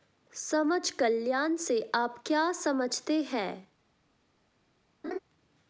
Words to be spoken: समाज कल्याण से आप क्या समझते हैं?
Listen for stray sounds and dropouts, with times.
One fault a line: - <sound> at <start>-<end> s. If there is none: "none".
- laugh at 5.0-5.2 s